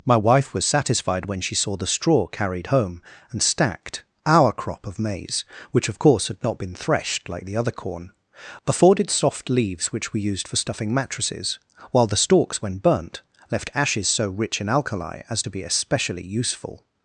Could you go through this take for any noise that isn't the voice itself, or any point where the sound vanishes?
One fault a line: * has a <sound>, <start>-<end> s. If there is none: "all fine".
all fine